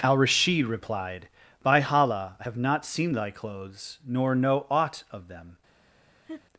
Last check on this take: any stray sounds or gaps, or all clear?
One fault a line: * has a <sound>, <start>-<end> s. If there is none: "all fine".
* has a laugh, 6.3-6.4 s